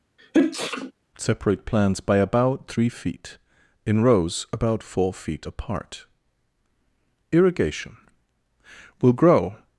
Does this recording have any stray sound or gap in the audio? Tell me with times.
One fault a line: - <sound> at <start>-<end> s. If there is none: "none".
- sneeze at 0.2-0.9 s